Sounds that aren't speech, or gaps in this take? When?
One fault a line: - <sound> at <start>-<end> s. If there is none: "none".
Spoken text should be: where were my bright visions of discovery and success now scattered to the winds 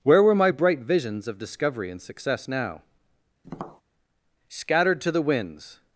- tap at 3.4-3.8 s